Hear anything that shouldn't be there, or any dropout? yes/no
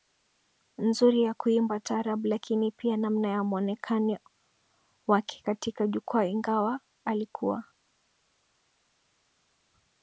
no